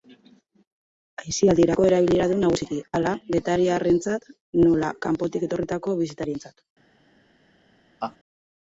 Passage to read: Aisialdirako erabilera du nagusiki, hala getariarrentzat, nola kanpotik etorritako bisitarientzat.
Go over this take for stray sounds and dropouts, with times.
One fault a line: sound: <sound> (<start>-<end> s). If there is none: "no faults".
sound: laugh (8.0-8.2 s)